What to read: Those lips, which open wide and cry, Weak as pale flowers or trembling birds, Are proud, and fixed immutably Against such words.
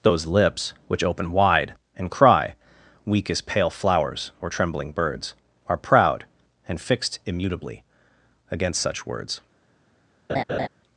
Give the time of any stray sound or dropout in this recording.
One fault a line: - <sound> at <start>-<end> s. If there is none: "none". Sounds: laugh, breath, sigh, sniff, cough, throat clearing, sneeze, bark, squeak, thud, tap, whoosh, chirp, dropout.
- laugh at 10.3-10.7 s